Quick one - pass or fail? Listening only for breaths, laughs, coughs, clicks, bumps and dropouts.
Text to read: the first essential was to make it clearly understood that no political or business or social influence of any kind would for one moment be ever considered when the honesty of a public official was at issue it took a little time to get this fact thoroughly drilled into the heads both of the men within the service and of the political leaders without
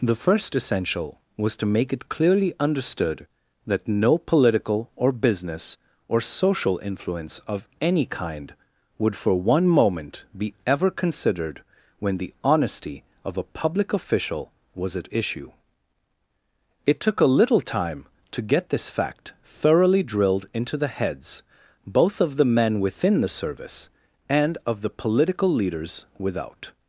pass